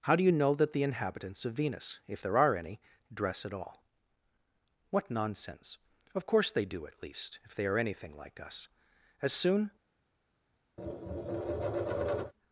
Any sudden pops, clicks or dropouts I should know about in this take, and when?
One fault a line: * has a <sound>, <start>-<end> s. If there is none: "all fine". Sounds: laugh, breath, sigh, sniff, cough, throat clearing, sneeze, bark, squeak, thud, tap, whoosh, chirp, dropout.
* has a tap, 10.8-12.3 s